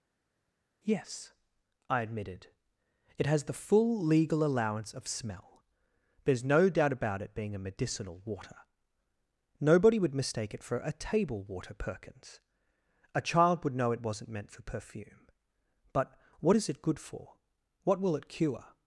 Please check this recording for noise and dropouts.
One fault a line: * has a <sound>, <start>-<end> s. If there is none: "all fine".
all fine